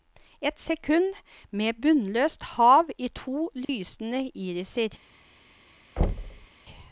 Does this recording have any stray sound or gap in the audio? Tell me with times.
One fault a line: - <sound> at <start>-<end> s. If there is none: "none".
- dropout at 3.6-3.7 s
- thud at 6.0-6.5 s